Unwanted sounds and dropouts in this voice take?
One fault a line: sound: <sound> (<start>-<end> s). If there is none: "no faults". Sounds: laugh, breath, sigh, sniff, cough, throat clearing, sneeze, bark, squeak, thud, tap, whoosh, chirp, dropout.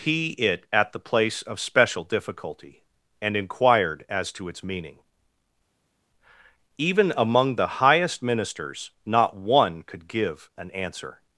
no faults